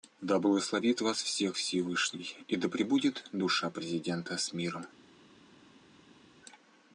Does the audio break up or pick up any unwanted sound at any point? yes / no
no